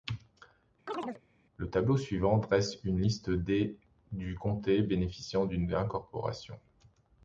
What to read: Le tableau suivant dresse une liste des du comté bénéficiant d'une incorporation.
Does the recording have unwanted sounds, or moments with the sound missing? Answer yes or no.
yes